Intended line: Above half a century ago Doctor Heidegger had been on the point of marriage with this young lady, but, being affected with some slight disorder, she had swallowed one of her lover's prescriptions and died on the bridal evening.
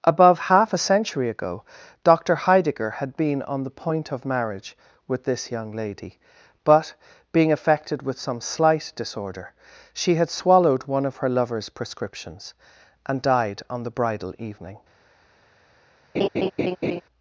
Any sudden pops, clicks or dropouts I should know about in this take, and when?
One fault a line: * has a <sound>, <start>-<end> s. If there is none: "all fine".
* has a laugh, 16.1-17.0 s